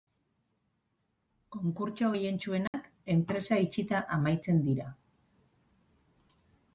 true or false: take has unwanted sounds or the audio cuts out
true